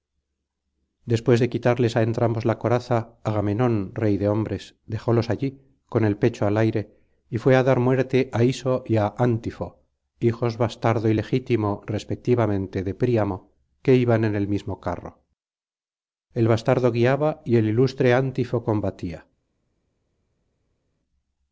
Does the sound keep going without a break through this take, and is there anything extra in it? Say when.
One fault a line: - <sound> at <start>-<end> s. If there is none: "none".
none